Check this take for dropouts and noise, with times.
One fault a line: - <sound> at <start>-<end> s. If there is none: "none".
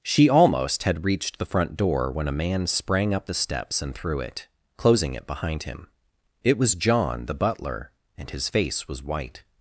none